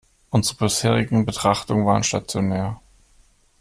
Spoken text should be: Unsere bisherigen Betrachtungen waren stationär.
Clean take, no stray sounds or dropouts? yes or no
yes